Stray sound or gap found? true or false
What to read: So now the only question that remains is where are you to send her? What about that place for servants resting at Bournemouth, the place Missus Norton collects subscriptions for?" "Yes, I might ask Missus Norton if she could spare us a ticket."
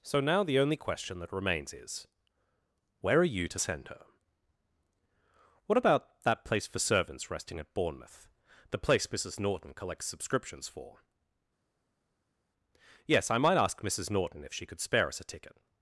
false